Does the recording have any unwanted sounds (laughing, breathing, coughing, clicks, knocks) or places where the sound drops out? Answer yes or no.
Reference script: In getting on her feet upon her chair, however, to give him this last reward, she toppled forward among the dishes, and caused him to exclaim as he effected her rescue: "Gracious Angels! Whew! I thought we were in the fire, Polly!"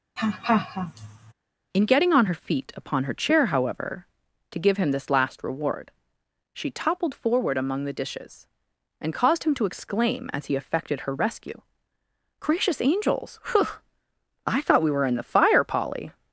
yes